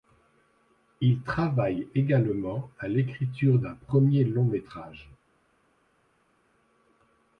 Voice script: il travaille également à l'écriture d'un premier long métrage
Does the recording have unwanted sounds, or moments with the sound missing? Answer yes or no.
no